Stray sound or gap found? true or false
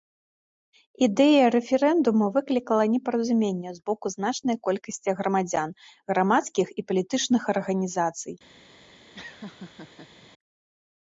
true